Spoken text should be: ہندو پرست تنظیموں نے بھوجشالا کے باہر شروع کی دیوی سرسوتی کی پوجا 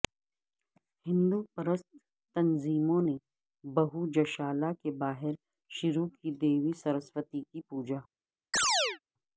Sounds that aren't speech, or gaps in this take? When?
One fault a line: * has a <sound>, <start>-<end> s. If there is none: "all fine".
* has a chirp, 8.5-9.0 s